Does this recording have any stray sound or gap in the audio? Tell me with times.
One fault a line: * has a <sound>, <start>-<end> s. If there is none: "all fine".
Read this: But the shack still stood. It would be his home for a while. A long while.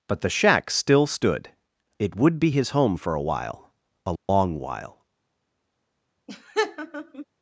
* has a dropout, 4.2-4.3 s
* has a laugh, 6.3-7.3 s